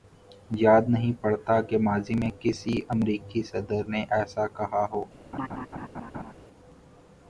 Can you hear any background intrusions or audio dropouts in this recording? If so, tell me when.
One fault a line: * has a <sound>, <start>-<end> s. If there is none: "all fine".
* has a laugh, 5.3-6.3 s